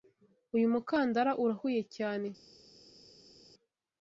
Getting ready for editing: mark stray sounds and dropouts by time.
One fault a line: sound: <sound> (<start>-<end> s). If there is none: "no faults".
no faults